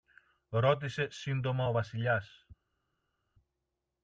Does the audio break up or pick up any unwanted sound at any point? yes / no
no